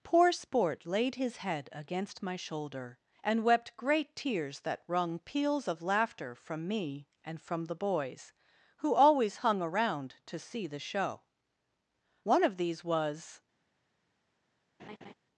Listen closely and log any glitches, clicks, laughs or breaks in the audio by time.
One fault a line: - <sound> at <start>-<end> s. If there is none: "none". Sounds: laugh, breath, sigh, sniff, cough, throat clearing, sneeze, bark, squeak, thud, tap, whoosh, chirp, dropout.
- laugh at 14.8-15.1 s